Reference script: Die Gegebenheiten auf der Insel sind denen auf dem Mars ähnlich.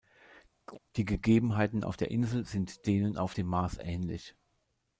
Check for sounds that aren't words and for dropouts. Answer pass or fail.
fail